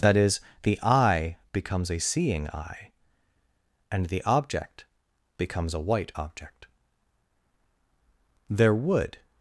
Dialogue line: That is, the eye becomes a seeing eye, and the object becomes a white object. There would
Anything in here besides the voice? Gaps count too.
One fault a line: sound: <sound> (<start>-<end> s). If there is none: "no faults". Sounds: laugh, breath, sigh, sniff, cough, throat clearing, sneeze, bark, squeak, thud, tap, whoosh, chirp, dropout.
no faults